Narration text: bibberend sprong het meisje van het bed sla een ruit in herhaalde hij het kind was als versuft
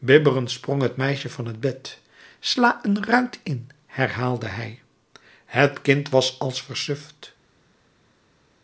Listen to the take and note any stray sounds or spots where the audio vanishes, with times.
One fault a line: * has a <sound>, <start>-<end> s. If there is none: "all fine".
all fine